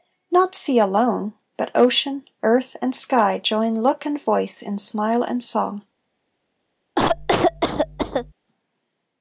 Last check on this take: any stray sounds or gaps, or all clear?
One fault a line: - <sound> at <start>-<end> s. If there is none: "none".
- cough at 7.0-8.3 s